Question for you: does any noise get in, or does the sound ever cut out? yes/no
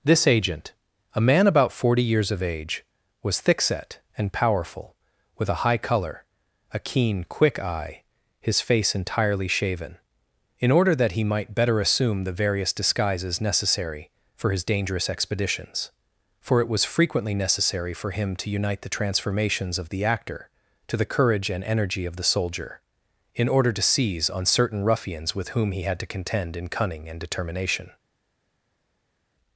no